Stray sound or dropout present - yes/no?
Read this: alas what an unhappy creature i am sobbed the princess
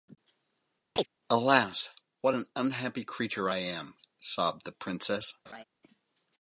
yes